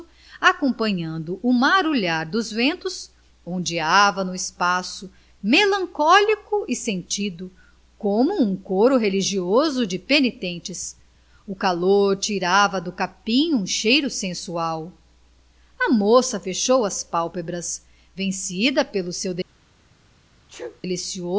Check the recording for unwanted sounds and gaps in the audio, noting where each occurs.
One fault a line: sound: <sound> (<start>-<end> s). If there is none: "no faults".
sound: sneeze (20.5-20.8 s)